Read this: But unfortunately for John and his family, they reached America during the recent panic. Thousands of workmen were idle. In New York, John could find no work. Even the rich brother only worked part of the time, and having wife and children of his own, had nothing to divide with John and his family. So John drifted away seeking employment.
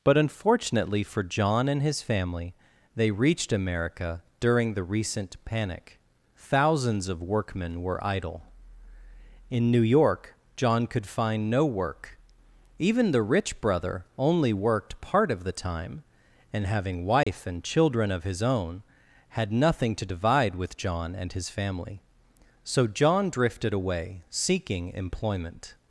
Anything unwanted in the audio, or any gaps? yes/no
yes